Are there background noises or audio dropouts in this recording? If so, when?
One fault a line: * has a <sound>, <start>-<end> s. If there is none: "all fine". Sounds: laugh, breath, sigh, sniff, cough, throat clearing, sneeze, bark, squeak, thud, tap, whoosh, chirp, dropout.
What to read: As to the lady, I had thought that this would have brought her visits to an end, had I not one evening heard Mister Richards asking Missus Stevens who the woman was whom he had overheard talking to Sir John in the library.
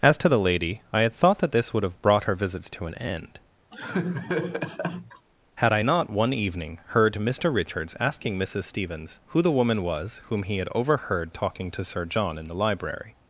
* has a laugh, 3.7-5.3 s